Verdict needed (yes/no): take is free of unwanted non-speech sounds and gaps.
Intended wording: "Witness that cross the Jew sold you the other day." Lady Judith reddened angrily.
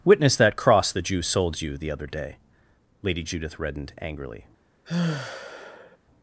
no